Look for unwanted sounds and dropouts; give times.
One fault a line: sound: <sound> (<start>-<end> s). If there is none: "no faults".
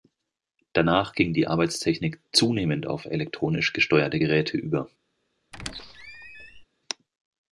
sound: squeak (5.5-6.7 s)